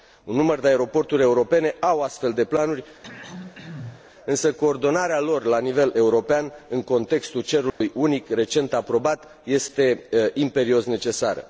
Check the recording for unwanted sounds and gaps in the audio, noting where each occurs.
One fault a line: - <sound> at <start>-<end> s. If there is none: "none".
- throat clearing at 3.0-4.1 s
- dropout at 7.7-7.8 s